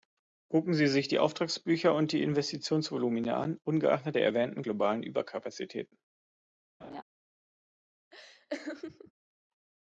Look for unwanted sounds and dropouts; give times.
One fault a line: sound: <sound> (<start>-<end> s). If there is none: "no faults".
sound: laugh (6.8-7.0 s)
sound: laugh (8.1-9.1 s)